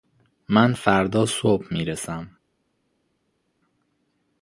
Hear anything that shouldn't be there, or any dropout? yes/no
no